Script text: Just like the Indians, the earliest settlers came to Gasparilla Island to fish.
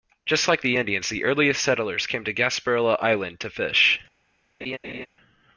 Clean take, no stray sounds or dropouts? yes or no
no